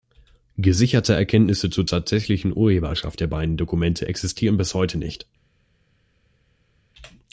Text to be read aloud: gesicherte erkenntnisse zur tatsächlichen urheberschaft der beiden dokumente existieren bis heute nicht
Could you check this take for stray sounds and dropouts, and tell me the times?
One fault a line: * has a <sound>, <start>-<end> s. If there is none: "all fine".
all fine